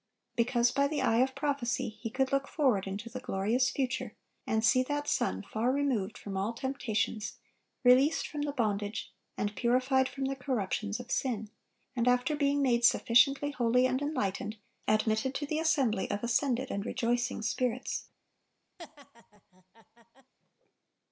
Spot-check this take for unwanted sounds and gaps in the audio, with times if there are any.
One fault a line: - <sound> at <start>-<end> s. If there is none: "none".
- laugh at 18.8-20.3 s